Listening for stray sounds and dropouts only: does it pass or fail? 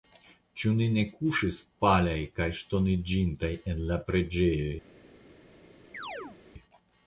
fail